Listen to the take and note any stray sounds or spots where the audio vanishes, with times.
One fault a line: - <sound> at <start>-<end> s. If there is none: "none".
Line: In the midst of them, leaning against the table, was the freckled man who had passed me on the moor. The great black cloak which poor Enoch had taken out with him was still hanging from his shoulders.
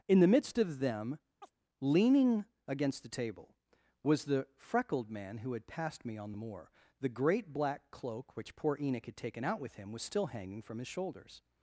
- chirp at 1.4-1.5 s